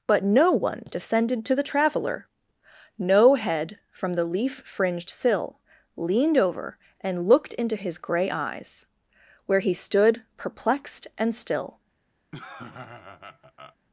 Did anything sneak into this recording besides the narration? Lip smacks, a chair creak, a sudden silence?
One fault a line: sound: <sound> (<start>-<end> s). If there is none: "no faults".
sound: laugh (12.3-13.8 s)